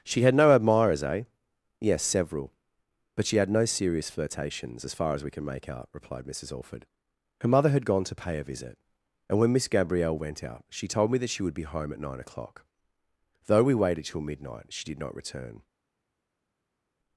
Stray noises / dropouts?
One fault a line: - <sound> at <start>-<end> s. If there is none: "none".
none